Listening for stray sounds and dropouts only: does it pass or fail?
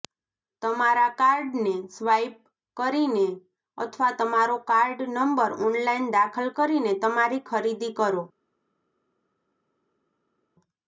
pass